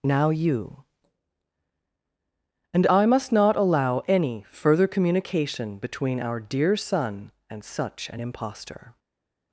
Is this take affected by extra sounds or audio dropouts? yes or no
no